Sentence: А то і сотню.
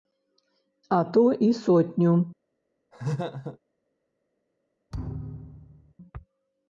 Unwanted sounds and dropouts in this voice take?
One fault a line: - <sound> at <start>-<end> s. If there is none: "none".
- laugh at 2.9-3.6 s
- thud at 4.9-5.9 s